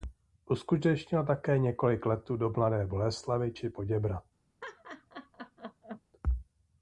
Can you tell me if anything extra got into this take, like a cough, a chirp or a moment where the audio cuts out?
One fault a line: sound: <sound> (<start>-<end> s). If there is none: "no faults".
sound: laugh (4.6-6.0 s)